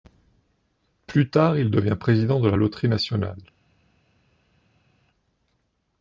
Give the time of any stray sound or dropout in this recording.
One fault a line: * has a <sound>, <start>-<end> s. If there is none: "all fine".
all fine